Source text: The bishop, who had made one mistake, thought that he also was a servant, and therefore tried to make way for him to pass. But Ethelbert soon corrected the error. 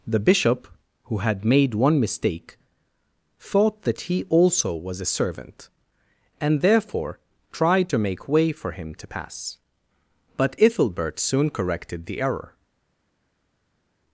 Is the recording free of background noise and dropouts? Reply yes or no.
yes